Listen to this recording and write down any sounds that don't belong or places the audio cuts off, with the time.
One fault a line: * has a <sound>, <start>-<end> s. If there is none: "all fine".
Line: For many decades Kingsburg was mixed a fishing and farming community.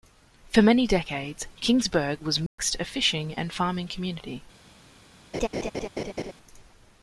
* has a dropout, 2.5-2.6 s
* has a laugh, 5.3-6.3 s